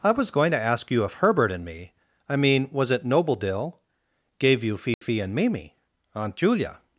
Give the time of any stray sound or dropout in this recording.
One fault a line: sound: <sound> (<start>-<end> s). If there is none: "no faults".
sound: dropout (4.9-5.0 s)